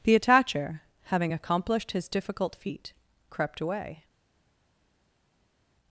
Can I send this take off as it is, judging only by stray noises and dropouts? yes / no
yes